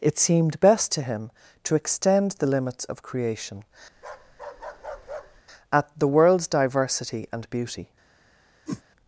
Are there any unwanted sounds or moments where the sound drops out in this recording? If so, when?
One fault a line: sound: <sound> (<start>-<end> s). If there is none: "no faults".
sound: bark (3.9-5.4 s)
sound: whoosh (8.7-8.8 s)